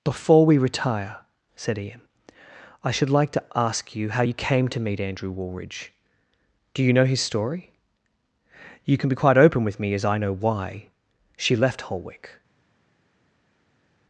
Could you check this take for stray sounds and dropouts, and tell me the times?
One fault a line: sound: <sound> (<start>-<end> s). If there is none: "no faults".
no faults